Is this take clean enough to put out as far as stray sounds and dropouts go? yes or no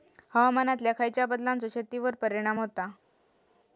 yes